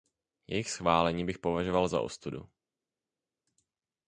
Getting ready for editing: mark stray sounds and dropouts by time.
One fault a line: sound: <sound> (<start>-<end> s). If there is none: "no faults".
no faults